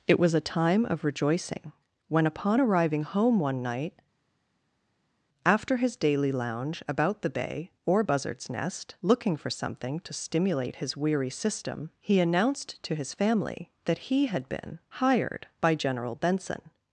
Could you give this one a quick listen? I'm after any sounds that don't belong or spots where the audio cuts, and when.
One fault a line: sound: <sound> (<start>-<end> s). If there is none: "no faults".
no faults